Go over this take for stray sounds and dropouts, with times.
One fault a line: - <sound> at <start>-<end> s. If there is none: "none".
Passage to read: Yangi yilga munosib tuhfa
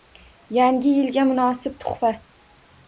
none